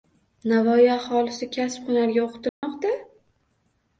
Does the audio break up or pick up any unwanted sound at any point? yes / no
yes